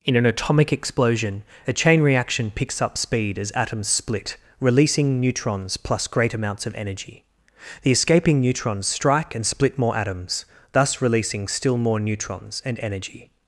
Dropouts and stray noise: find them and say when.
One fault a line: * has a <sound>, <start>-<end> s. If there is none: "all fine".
all fine